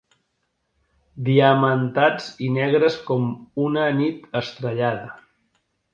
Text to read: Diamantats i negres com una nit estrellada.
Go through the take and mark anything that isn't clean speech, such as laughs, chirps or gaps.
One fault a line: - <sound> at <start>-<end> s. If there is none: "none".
none